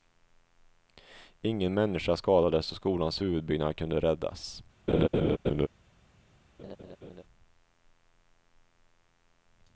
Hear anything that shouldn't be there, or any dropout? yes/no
yes